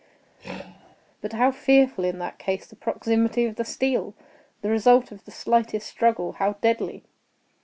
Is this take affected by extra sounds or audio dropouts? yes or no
yes